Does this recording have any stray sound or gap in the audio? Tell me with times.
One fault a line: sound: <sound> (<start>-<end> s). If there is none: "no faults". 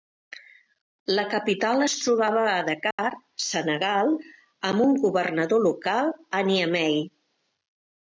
sound: dropout (2.9-3.0 s)